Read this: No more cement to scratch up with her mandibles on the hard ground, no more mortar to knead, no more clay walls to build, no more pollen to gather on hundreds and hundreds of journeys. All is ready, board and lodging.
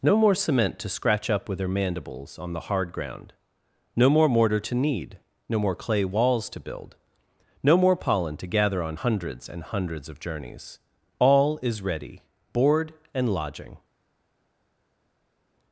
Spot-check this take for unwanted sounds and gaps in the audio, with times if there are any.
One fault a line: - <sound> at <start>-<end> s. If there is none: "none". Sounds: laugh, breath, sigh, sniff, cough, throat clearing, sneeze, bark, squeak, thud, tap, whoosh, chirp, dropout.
none